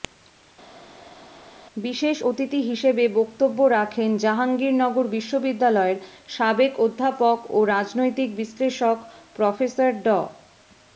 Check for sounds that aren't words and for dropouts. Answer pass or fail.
pass